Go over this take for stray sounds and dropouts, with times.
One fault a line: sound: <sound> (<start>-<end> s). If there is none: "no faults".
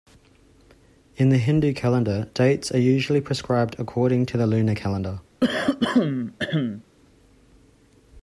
sound: throat clearing (5.4-6.8 s)